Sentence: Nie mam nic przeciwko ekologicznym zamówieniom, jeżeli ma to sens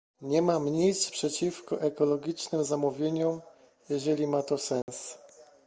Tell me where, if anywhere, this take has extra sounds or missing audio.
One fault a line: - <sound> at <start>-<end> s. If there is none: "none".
- dropout at 4.8-4.9 s